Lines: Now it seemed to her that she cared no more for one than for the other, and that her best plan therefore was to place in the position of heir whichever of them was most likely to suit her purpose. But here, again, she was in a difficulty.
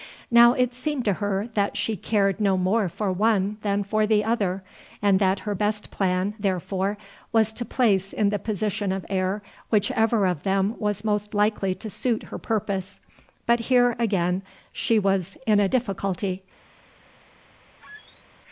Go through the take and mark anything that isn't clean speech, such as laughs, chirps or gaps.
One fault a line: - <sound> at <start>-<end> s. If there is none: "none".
- squeak at 17.8-18.2 s